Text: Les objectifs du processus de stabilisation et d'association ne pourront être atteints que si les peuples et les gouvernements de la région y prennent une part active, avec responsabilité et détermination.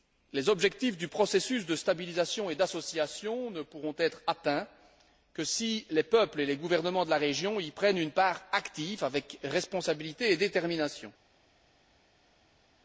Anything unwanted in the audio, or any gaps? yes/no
no